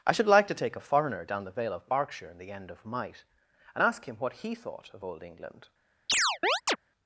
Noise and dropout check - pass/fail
fail